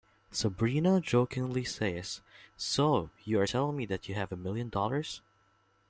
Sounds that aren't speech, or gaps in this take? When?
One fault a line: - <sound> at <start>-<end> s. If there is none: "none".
none